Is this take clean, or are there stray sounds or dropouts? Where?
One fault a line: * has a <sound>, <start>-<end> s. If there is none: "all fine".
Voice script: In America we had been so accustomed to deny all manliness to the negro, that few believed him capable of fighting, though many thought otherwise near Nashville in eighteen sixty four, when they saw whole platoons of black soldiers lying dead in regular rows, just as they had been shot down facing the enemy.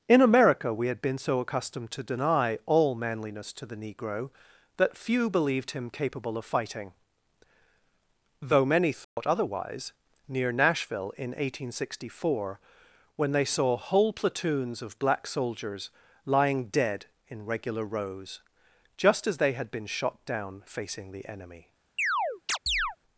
* has a dropout, 9.0-9.2 s
* has a chirp, 22.0-23.0 s